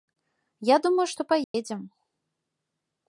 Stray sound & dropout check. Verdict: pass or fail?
fail